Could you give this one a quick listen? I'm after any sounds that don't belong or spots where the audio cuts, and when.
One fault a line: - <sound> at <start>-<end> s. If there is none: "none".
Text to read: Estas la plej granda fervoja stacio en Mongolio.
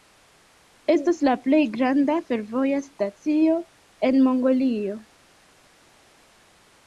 none